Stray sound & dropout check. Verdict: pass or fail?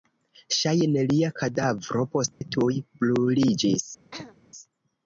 fail